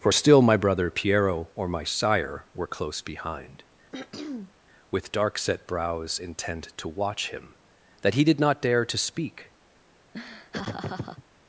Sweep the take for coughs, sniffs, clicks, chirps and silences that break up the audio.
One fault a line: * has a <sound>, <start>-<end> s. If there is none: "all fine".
* has a throat clearing, 3.9-4.5 s
* has a laugh, 10.1-11.2 s